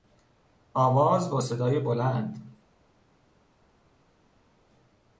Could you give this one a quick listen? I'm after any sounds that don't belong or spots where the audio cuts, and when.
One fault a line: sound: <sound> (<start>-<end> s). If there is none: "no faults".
no faults